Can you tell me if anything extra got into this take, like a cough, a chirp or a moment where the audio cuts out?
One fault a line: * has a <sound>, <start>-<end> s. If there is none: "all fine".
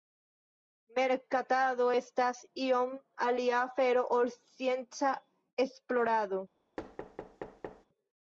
* has a thud, 6.8-7.9 s